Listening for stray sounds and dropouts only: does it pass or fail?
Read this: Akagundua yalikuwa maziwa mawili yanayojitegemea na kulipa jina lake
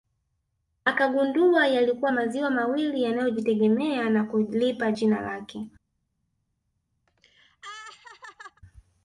fail